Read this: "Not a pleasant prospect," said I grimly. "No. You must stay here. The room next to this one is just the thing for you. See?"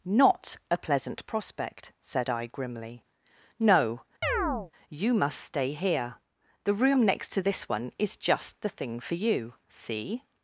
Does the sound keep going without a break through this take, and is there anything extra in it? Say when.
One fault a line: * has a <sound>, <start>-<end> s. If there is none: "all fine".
* has a chirp, 4.2-4.7 s